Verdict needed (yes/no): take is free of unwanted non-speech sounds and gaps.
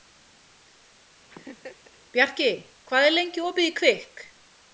no